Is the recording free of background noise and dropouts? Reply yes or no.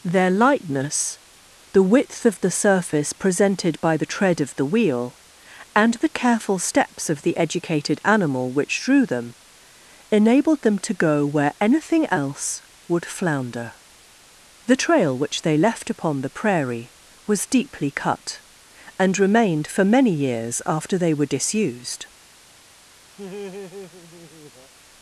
no